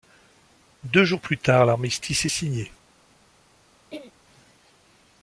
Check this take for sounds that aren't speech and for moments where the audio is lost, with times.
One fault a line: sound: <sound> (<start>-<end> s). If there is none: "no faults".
sound: throat clearing (3.9-4.1 s)